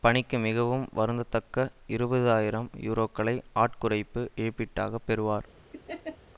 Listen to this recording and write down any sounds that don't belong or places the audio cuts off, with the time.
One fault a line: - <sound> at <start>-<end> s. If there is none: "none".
- laugh at 5.7-6.2 s